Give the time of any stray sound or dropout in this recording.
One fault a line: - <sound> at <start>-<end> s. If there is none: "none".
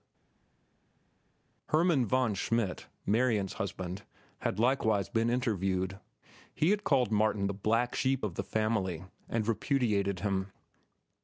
none